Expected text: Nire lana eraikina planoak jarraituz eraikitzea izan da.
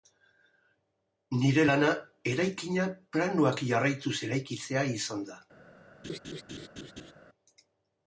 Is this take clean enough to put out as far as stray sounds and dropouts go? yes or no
no